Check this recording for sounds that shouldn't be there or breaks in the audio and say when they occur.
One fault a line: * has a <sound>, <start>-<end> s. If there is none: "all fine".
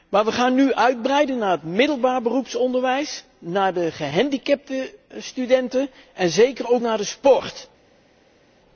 all fine